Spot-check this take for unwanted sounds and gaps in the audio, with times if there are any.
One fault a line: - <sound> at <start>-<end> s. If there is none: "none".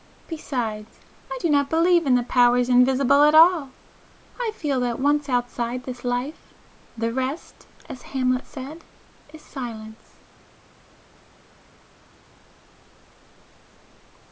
none